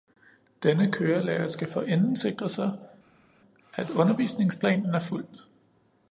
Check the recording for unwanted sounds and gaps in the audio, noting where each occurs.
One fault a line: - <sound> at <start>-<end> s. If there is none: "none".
none